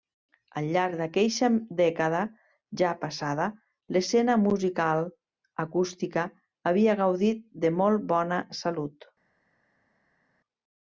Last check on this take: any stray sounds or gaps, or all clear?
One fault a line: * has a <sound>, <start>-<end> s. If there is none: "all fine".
all fine